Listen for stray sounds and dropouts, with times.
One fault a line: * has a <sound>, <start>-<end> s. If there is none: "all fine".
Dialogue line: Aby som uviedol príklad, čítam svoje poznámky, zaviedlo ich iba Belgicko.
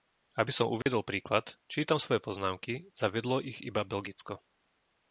* has a dropout, 0.8-0.9 s